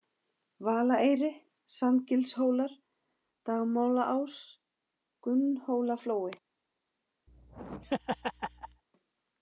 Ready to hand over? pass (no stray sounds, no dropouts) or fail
fail